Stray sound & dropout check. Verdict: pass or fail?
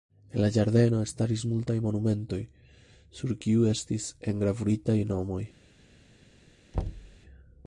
fail